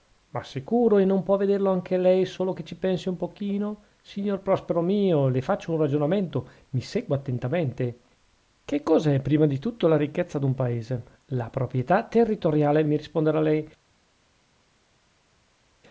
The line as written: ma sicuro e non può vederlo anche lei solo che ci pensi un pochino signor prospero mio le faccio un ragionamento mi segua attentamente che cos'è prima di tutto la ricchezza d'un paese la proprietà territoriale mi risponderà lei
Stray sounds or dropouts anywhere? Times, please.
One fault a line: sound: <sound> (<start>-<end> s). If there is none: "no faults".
no faults